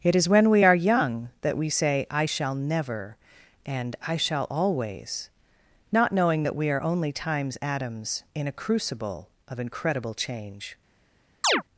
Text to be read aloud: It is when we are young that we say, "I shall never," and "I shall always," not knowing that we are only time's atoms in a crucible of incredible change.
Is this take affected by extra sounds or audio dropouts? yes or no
yes